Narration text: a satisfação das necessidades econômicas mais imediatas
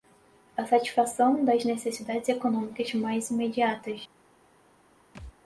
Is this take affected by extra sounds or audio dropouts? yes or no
yes